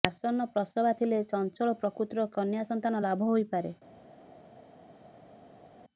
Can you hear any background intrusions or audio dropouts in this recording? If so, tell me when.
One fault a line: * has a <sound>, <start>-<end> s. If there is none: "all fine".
all fine